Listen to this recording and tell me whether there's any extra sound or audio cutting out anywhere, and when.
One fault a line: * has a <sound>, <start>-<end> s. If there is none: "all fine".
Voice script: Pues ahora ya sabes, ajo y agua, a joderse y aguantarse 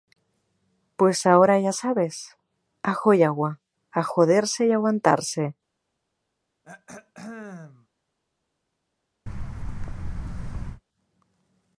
* has a throat clearing, 6.6-7.9 s
* has a thud, 9.3-10.8 s